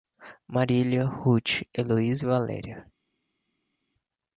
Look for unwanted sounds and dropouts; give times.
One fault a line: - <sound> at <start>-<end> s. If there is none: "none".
none